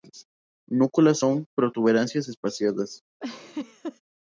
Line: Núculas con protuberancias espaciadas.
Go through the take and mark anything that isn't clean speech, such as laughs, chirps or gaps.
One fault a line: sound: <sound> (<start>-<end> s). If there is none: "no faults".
sound: laugh (3.2-4.0 s)